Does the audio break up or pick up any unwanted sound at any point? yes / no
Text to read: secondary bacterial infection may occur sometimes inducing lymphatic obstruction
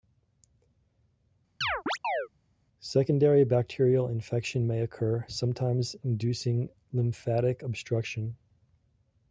yes